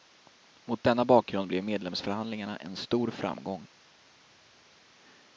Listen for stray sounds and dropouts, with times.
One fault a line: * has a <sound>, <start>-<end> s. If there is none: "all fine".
all fine